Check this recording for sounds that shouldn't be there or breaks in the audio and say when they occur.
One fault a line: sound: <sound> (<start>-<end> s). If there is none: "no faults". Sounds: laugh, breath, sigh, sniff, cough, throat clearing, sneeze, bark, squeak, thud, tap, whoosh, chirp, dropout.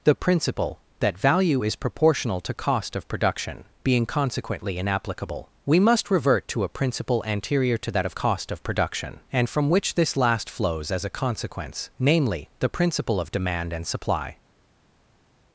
no faults